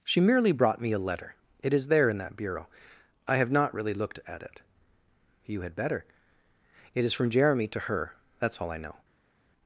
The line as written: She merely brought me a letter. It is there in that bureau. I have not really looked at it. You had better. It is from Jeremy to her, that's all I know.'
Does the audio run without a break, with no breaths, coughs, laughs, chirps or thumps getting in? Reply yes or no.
yes